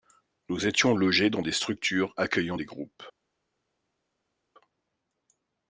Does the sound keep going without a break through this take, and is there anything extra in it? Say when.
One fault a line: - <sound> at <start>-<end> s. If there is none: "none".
none